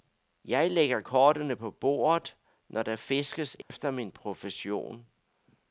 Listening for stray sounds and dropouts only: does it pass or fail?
fail